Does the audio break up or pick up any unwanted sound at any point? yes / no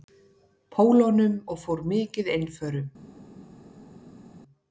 no